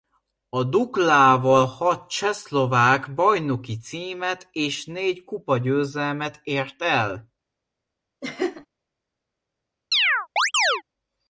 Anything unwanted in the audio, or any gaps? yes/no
yes